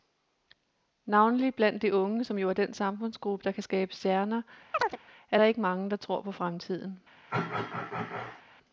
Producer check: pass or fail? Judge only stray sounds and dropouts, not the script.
fail